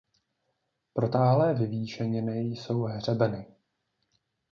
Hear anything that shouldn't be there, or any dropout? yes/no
no